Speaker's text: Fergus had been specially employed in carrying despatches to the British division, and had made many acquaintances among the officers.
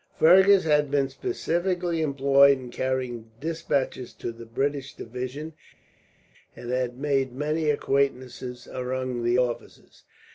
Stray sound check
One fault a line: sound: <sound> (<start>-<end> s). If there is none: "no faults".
no faults